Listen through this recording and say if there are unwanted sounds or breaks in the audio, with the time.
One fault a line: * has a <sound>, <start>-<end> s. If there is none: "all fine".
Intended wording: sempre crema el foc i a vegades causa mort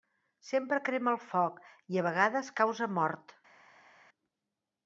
all fine